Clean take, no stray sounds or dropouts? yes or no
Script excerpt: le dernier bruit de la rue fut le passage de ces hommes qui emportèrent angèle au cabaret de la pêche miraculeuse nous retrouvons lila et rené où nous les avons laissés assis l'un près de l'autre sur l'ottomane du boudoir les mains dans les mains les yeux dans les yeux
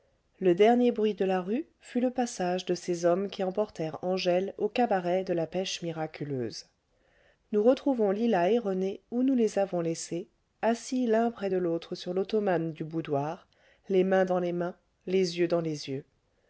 yes